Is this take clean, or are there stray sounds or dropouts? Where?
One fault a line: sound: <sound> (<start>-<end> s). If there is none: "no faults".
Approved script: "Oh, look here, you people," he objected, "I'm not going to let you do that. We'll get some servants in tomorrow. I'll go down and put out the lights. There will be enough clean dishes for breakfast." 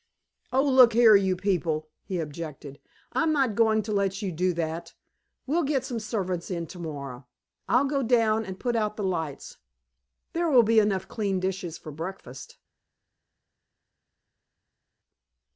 no faults